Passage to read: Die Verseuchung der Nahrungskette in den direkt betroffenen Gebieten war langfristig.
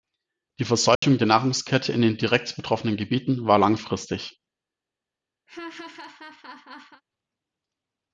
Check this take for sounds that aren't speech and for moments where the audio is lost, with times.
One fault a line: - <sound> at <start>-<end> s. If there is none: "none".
- dropout at 1.0-1.0 s
- laugh at 5.5-7.0 s